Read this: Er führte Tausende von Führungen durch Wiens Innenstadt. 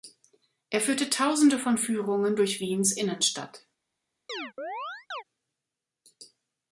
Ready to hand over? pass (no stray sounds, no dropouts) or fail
fail